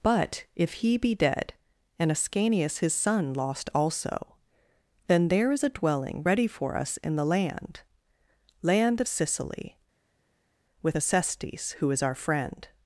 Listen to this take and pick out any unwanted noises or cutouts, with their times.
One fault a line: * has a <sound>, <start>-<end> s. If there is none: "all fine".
all fine